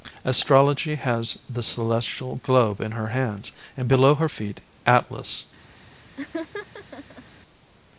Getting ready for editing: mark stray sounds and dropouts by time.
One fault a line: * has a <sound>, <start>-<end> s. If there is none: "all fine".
* has a laugh, 6.2-7.2 s